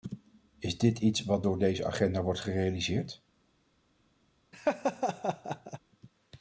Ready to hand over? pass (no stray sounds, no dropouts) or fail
fail